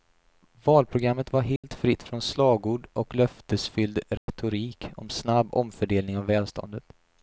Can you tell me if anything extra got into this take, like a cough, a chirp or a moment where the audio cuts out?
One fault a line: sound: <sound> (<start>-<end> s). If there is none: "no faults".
sound: dropout (1.6-1.6 s)
sound: dropout (4.2-4.3 s)